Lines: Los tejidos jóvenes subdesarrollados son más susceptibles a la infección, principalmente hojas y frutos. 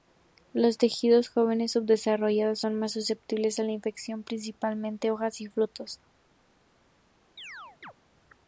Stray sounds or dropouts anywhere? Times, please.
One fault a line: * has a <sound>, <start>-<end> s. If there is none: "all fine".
* has a chirp, 7.4-7.9 s